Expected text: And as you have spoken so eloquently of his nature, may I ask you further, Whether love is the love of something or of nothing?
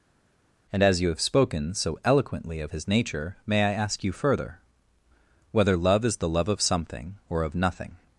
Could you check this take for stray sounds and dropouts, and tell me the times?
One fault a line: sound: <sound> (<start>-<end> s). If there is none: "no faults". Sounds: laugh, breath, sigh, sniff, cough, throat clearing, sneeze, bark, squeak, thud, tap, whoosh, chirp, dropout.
no faults